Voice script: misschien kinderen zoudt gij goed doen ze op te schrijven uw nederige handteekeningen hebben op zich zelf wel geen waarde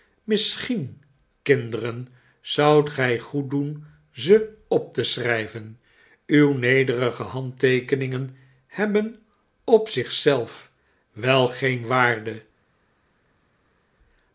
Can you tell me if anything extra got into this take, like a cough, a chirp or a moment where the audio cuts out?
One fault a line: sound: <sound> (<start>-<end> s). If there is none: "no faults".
no faults